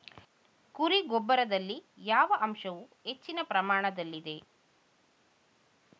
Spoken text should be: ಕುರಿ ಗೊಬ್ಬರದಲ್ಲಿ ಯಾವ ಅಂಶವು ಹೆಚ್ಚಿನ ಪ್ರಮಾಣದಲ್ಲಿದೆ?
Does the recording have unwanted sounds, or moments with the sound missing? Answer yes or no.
no